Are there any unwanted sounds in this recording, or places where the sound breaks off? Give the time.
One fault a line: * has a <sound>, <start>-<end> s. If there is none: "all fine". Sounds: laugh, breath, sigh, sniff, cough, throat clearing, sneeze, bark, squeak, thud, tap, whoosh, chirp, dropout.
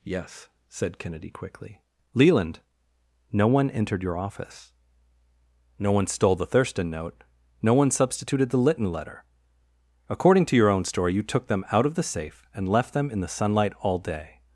all fine